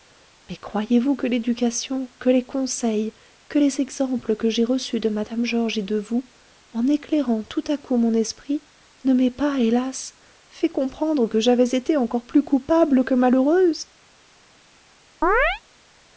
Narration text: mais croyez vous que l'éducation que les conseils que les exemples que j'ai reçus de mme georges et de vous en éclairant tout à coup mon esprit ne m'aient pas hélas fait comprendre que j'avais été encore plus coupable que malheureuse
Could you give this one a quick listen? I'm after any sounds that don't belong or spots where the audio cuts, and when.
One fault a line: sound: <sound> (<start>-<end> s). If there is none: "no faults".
sound: chirp (15.2-15.6 s)